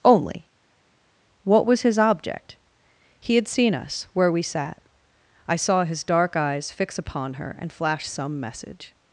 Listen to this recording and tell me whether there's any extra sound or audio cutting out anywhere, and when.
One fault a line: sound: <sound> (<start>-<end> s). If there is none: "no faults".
no faults